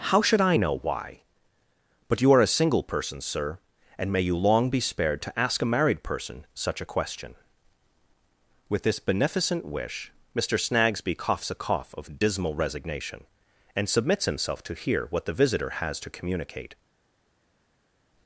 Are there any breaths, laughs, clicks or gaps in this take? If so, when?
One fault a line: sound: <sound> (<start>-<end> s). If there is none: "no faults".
no faults